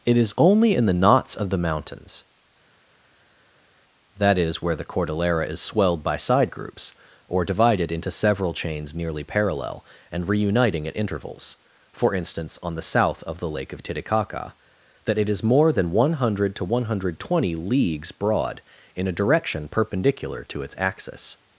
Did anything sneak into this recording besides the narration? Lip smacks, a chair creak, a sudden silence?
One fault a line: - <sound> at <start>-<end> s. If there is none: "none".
none